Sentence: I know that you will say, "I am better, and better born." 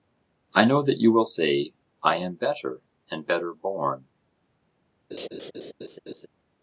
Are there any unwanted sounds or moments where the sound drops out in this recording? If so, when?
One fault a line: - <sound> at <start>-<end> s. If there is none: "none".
- laugh at 5.1-6.3 s